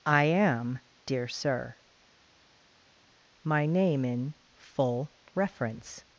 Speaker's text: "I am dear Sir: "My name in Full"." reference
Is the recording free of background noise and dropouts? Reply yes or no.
yes